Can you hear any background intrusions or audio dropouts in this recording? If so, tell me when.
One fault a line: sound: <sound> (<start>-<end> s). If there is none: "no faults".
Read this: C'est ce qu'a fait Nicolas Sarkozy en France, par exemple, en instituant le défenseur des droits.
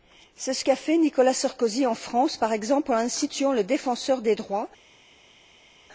no faults